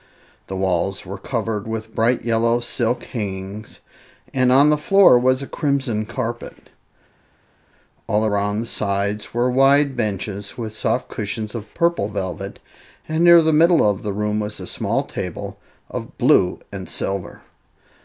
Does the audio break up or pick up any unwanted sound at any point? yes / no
no